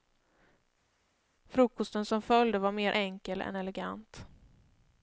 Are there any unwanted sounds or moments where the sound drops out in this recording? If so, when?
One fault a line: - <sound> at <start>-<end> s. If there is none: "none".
none